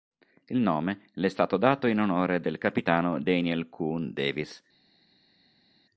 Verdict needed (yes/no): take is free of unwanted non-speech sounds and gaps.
yes